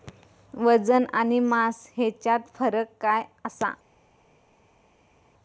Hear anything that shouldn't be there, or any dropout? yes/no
no